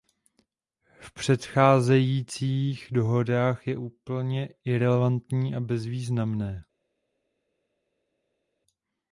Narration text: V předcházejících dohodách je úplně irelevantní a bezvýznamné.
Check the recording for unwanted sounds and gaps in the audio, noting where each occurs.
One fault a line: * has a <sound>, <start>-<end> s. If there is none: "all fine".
all fine